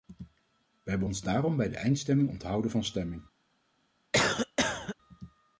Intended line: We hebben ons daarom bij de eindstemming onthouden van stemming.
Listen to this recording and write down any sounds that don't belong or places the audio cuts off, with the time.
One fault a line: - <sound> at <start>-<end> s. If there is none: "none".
- cough at 4.1-5.0 s